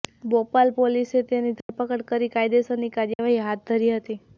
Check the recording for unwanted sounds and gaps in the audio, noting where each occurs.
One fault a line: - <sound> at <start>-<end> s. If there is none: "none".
- dropout at 1.6-1.7 s
- dropout at 3.1-3.2 s